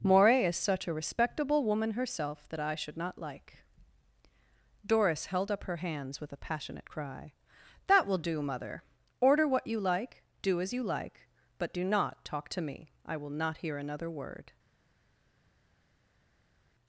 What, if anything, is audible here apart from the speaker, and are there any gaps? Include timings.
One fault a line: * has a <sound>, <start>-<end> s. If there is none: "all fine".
all fine